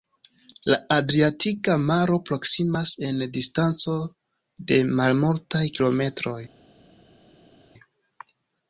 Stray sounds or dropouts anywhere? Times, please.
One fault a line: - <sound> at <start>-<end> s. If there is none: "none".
none